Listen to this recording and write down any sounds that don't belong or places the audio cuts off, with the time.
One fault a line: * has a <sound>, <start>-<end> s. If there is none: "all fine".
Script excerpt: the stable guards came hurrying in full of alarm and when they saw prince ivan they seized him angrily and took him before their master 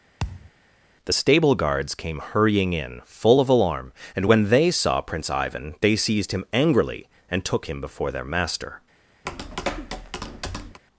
* has a thud, 0.2-0.5 s
* has a tap, 9.3-10.8 s